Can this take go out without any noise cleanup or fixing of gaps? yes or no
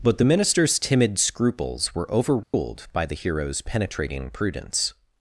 no